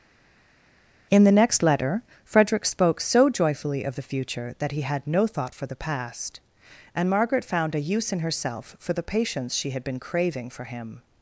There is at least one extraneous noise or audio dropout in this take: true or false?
false